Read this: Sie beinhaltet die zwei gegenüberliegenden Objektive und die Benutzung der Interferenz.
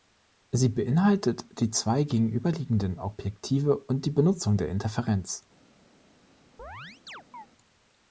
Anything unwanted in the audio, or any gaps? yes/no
yes